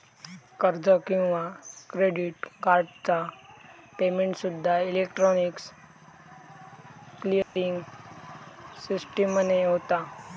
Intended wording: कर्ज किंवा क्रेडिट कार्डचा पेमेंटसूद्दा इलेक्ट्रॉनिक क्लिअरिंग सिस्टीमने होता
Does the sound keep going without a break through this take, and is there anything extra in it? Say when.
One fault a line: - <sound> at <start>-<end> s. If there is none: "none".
- dropout at 7.4-7.6 s